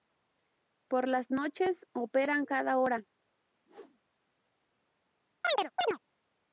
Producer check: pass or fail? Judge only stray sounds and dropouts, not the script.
fail